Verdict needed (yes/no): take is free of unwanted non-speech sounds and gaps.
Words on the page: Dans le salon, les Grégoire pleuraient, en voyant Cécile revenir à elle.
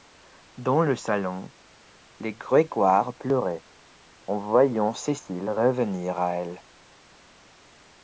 yes